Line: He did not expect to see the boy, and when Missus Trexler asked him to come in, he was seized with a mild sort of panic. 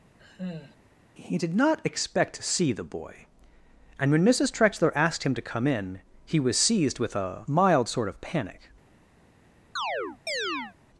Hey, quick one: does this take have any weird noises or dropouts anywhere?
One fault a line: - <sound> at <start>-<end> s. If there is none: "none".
- sigh at 0.2-0.8 s
- chirp at 9.8-10.8 s